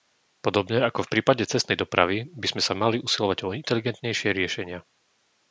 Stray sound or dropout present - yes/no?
no